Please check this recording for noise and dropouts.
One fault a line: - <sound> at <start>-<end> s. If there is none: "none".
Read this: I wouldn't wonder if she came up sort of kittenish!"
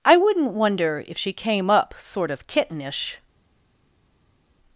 none